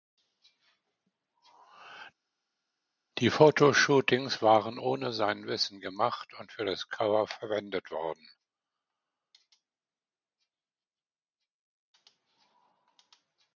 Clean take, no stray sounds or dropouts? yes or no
yes